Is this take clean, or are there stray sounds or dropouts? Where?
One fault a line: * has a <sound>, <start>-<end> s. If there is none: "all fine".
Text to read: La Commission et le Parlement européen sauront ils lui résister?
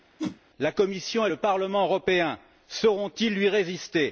* has a whoosh, 0.2-0.4 s